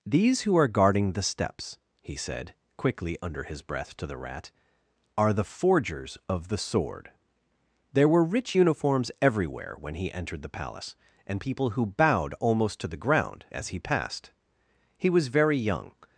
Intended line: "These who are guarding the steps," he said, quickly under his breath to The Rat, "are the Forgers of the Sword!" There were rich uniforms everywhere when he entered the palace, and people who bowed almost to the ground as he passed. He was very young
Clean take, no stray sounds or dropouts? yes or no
yes